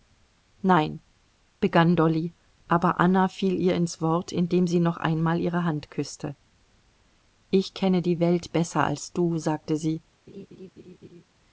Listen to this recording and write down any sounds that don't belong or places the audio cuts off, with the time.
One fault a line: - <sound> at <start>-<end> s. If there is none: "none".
- laugh at 10.3-11.2 s